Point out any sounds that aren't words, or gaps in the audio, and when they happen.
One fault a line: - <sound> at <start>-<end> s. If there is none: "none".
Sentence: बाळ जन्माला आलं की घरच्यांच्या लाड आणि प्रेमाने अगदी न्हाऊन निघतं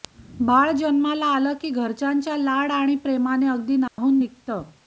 - dropout at 3.9-4.0 s